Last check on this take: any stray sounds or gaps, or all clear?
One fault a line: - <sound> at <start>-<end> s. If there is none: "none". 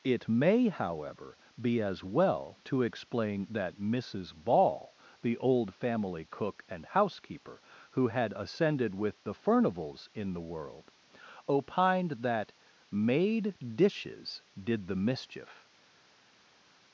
none